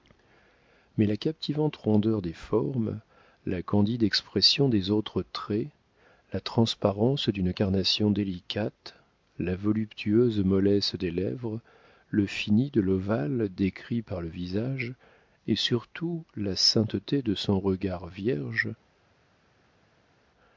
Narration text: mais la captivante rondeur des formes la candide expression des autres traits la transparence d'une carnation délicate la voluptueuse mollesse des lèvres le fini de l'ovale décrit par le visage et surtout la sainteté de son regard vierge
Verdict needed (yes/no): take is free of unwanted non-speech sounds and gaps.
yes